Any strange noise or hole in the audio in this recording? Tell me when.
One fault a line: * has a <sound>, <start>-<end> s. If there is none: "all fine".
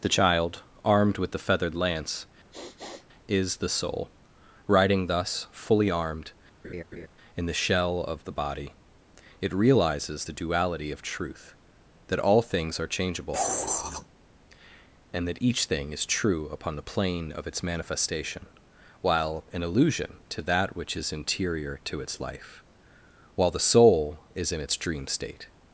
* has a sniff, 2.5-3.1 s
* has a laugh, 6.6-7.1 s